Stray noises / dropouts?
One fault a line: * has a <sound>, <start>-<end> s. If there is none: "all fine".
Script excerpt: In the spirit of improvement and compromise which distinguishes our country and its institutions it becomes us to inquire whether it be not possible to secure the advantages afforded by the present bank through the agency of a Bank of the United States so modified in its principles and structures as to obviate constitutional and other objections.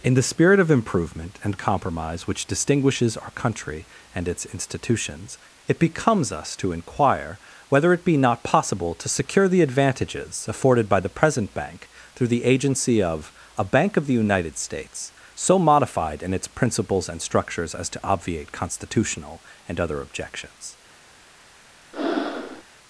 * has a breath, 21.9-22.6 s